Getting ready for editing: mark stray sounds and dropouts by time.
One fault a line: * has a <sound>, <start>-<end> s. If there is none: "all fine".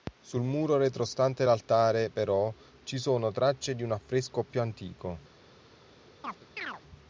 * has a chirp, 6.2-6.8 s